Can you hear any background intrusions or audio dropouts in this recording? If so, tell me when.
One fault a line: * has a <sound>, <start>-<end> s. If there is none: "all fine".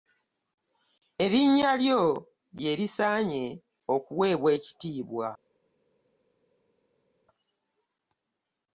all fine